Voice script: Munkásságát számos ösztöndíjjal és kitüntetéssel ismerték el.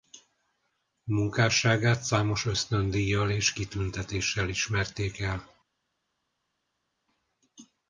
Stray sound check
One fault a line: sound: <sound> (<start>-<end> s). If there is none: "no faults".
no faults